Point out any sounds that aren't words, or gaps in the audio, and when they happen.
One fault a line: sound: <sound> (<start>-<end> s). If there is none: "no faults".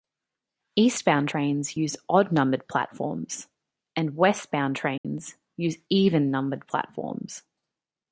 sound: dropout (5.0-5.0 s)